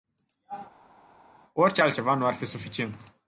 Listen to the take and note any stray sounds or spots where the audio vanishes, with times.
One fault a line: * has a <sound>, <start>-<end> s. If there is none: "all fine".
all fine